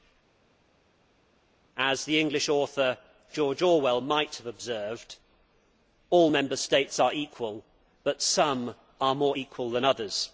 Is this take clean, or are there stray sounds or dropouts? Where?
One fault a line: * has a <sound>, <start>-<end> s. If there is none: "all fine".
all fine